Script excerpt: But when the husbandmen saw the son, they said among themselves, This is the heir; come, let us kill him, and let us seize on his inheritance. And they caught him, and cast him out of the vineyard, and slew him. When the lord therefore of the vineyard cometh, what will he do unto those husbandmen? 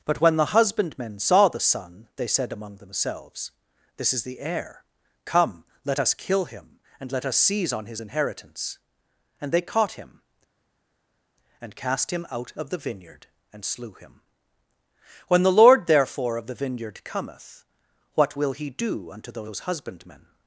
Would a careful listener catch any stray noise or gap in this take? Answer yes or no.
no